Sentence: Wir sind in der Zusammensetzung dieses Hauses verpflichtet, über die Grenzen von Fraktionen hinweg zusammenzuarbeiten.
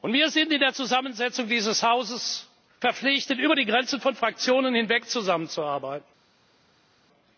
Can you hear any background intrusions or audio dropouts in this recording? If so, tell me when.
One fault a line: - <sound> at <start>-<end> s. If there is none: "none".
none